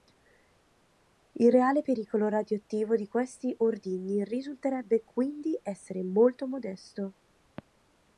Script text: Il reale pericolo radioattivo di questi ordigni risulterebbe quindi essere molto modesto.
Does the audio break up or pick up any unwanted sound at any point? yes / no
no